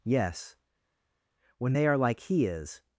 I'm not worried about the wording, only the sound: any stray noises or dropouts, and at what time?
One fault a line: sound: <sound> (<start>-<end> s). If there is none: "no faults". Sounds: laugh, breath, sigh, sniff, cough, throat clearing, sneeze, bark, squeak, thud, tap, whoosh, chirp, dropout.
no faults